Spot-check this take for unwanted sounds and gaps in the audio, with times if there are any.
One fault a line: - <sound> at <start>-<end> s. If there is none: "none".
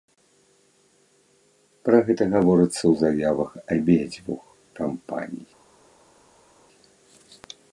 none